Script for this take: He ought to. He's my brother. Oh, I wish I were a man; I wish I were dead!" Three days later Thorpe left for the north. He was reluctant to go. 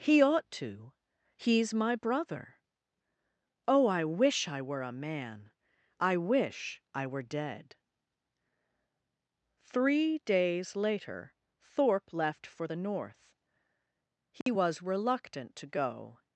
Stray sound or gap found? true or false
true